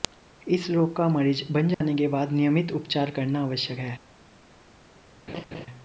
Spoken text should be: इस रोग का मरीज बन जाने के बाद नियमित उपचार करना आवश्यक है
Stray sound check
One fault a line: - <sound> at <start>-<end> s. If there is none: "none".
- dropout at 1.7-1.8 s
- laugh at 5.3-5.7 s